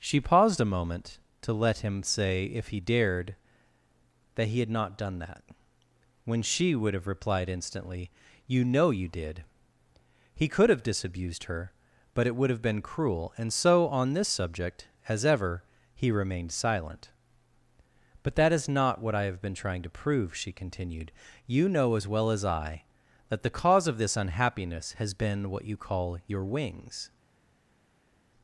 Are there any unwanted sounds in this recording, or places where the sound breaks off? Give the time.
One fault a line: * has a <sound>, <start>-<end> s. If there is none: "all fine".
all fine